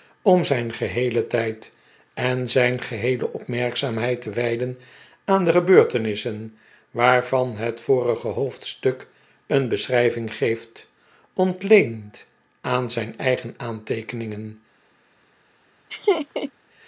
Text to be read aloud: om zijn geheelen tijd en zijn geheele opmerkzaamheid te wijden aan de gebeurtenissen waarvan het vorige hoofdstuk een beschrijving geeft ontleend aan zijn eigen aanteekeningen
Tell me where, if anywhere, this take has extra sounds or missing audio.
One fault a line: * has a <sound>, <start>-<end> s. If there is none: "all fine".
* has a laugh, 15.9-16.5 s